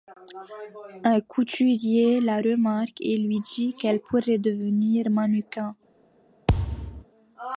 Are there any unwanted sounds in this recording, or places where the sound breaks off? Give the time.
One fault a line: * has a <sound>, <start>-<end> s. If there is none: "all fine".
* has a thud, 6.5-7.0 s